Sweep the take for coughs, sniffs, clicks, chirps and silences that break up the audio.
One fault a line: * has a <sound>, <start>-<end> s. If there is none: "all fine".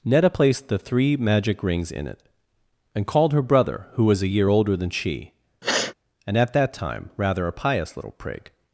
* has a sniff, 5.6-5.9 s